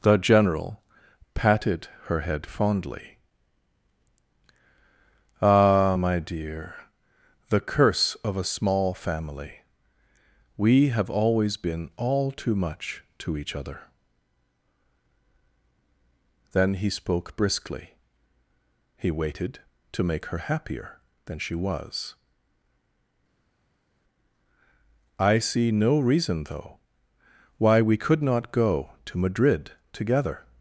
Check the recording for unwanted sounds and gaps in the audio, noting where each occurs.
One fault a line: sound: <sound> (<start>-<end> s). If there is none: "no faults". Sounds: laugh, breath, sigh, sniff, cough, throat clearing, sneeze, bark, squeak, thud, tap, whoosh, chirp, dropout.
no faults